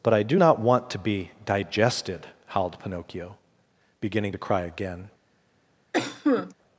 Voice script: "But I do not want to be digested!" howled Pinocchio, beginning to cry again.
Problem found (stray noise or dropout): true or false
true